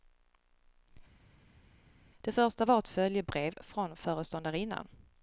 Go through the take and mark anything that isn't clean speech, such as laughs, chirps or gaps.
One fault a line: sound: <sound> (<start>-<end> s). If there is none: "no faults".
no faults